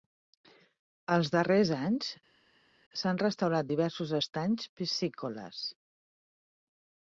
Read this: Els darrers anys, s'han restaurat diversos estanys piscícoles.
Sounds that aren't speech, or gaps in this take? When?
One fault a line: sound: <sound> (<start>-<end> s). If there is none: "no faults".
no faults